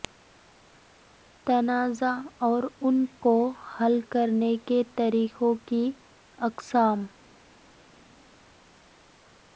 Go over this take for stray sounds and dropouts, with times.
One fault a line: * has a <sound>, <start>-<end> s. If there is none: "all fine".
all fine